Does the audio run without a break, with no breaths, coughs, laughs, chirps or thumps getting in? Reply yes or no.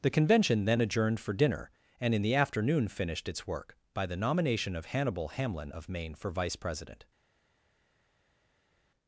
yes